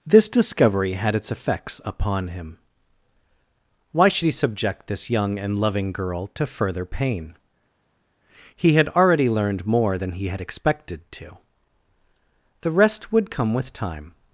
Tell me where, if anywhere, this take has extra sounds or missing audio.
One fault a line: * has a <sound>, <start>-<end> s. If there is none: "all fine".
all fine